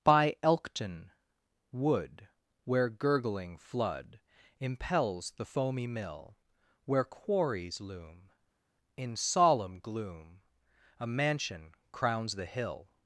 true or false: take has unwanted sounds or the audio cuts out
false